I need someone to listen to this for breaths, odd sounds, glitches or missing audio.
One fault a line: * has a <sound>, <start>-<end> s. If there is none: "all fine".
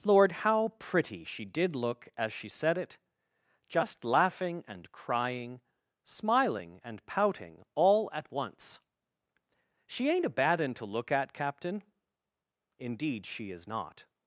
all fine